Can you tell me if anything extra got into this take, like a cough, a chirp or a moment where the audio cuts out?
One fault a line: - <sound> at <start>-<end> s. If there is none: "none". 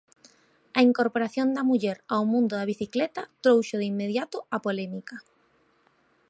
none